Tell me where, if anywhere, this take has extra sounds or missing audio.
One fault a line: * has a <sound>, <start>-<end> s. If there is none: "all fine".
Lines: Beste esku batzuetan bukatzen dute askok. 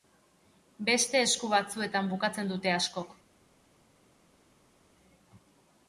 all fine